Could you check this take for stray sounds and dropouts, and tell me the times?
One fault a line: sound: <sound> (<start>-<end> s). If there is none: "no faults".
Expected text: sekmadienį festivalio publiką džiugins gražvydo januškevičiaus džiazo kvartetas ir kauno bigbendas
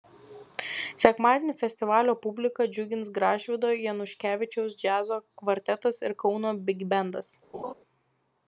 sound: laugh (7.5-7.7 s)